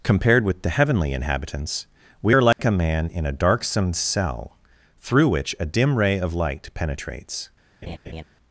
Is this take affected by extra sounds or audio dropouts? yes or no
yes